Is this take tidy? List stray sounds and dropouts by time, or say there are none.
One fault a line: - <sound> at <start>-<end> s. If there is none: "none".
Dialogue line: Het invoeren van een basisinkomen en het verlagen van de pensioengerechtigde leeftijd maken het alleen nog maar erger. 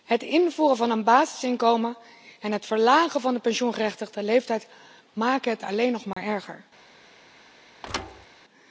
- dropout at 6.1-6.2 s
- thud at 7.8-8.3 s